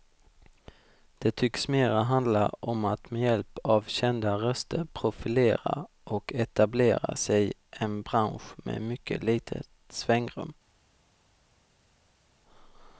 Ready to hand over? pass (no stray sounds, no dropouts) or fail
pass